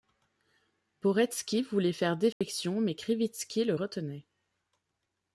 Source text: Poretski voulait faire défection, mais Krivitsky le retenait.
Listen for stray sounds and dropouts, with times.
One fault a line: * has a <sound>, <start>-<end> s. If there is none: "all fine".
* has a dropout, 2.3-2.4 s